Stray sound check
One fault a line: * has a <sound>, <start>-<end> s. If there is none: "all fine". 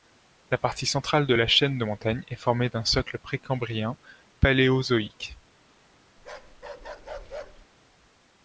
* has a bark, 6.2-7.7 s